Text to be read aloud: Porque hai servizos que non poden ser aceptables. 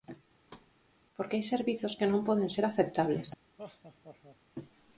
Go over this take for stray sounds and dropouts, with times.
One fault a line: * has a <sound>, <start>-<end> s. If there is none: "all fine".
* has a thud, 0.5-0.7 s
* has a laugh, 3.6-4.4 s